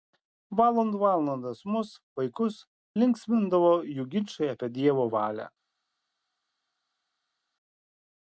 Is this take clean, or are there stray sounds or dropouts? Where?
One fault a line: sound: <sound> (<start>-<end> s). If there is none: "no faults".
no faults